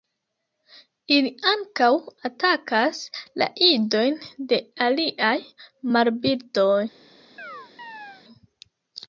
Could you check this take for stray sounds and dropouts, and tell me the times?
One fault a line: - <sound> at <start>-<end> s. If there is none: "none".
- chirp at 7.4-8.2 s